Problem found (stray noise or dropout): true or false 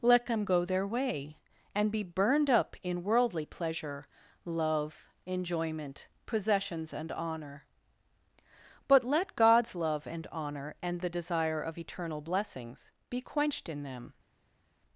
false